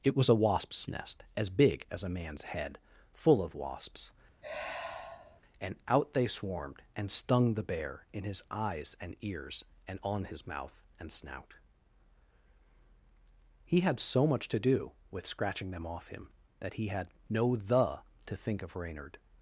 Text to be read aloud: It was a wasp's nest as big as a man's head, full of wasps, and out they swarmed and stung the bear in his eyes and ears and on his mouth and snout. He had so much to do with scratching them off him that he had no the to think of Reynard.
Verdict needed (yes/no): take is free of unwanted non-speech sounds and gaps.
no